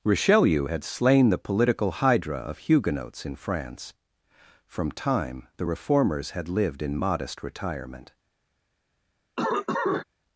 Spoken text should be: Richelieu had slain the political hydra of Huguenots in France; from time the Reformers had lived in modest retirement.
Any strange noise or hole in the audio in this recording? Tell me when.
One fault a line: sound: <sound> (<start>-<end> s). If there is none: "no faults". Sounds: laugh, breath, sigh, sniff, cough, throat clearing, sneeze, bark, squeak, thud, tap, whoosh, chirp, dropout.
sound: cough (9.4-10.0 s)